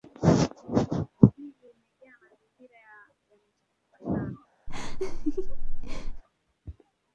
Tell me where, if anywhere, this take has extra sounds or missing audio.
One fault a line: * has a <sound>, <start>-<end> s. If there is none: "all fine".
* has a laugh, 4.7-6.2 s